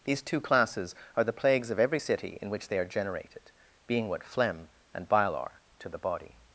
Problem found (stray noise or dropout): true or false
false